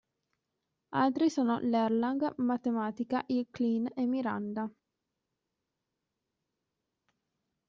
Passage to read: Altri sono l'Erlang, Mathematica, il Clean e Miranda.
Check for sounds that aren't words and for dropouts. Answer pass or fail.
pass